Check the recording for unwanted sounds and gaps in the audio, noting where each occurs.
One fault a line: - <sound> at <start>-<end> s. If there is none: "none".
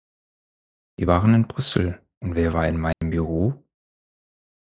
- dropout at 2.9-3.0 s